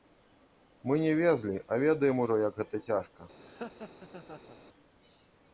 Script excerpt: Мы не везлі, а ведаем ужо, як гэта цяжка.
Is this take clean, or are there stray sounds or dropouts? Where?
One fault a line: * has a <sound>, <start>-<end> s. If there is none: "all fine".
* has a laugh, 3.4-4.6 s